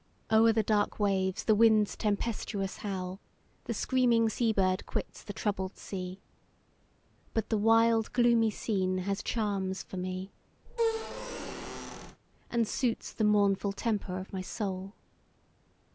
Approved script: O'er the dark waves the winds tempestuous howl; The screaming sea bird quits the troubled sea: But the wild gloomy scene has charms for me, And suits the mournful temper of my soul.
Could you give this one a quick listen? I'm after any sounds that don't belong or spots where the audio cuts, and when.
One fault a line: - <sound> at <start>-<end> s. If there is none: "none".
- squeak at 10.7-12.2 s